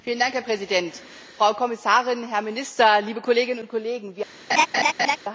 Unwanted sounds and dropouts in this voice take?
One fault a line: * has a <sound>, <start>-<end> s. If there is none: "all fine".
* has a laugh, 4.5-5.2 s